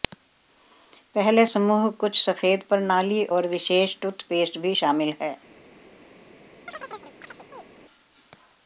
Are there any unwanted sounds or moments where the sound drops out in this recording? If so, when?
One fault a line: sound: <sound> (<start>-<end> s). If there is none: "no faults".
sound: chirp (6.7-7.7 s)